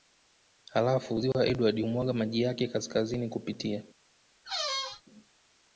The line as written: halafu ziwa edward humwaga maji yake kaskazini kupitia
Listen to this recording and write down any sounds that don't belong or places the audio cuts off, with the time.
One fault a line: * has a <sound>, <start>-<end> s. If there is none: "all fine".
* has a squeak, 4.4-5.0 s